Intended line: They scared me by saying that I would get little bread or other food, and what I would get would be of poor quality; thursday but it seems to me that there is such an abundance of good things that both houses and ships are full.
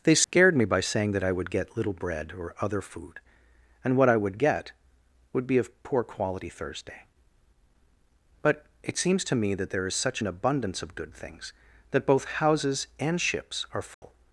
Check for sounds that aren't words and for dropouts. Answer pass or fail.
fail